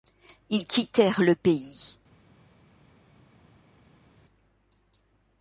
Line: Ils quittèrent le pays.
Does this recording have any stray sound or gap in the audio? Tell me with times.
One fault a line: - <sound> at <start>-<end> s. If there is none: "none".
none